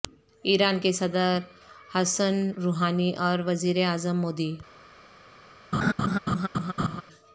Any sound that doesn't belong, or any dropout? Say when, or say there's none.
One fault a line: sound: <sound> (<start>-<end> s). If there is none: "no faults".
sound: laugh (5.7-7.0 s)